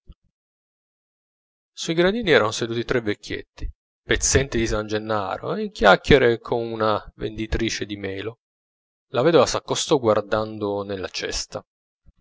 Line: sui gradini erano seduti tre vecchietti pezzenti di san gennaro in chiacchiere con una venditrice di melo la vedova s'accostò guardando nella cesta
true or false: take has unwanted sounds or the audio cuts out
false